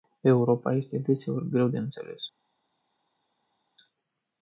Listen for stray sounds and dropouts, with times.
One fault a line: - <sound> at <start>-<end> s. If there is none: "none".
none